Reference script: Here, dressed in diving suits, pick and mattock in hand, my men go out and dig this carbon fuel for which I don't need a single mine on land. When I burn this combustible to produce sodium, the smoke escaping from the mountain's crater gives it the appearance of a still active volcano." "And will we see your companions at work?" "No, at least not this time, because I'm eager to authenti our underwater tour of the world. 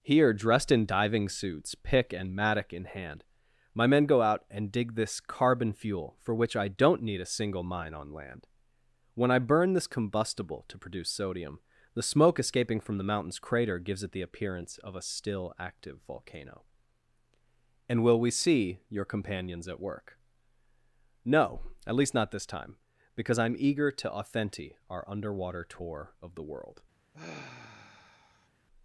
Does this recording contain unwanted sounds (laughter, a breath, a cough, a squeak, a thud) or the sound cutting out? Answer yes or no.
yes